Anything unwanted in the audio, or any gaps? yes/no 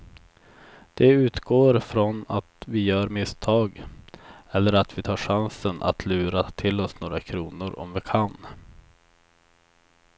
no